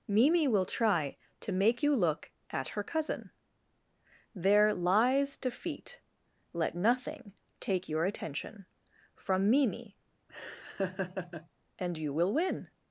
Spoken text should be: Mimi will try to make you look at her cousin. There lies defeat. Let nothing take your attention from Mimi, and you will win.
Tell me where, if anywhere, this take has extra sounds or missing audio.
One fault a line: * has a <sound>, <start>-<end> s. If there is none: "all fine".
* has a laugh, 10.3-11.5 s